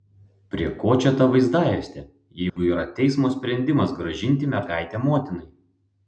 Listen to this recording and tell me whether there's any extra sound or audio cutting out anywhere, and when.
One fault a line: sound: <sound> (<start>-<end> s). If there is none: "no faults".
sound: dropout (2.5-2.6 s)